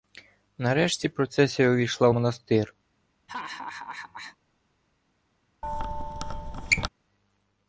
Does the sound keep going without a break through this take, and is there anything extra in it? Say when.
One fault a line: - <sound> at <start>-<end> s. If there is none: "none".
- laugh at 3.3-4.4 s
- squeak at 5.6-6.9 s